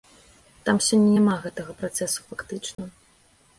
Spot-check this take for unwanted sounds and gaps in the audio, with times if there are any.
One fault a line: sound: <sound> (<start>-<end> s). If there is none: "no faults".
sound: dropout (2.7-2.8 s)